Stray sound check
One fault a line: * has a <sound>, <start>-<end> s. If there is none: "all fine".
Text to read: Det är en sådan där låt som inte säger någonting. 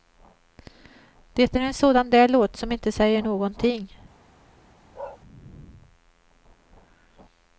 * has a bark, 4.9-5.2 s